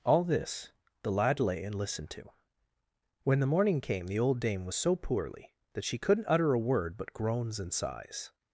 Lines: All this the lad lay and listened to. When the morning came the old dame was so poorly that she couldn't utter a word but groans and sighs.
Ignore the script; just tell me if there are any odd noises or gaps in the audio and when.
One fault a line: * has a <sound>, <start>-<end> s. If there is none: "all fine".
all fine